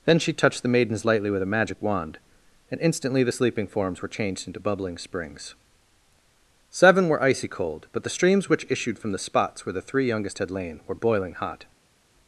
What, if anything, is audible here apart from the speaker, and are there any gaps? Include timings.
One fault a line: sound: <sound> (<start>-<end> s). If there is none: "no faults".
no faults